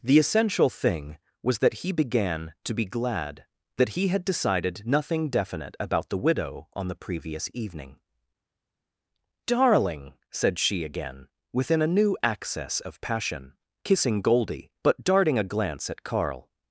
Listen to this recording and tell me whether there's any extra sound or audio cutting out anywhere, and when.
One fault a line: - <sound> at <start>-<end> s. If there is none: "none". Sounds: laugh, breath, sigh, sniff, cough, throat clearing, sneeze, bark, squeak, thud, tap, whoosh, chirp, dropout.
none